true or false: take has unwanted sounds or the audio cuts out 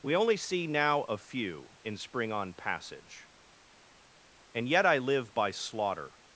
false